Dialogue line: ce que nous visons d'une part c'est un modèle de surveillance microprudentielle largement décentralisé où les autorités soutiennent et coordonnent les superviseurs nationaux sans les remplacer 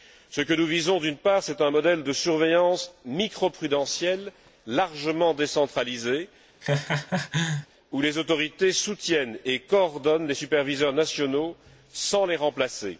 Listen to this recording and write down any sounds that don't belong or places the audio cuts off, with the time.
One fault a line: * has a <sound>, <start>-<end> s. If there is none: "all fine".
* has a laugh, 6.6-7.7 s